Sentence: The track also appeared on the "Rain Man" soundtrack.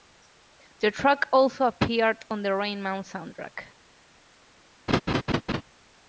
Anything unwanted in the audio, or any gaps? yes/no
yes